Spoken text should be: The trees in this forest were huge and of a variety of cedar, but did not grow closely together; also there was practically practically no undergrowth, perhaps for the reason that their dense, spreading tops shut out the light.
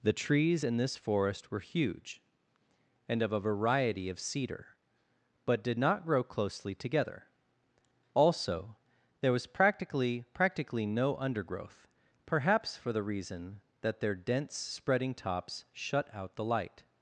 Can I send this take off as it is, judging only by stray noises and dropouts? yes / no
yes